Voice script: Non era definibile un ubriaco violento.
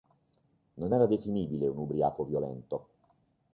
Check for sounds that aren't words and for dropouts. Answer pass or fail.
pass